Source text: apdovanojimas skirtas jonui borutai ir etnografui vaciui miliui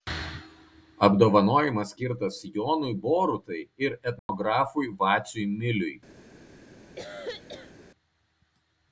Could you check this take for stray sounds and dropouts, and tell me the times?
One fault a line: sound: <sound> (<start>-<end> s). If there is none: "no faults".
sound: dropout (4.2-4.3 s)
sound: cough (7.0-7.7 s)